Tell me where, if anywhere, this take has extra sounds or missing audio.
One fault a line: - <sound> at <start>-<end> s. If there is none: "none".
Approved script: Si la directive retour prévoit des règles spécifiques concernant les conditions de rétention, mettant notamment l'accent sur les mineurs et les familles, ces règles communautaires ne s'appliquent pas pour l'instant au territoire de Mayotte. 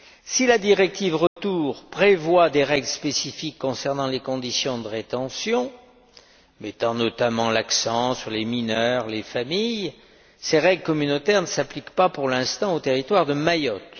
- dropout at 1.3-1.4 s